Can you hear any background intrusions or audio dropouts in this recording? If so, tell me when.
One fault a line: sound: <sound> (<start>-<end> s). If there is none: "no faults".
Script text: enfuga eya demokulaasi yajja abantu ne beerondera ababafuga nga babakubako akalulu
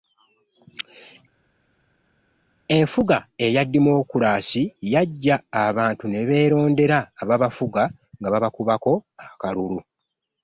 no faults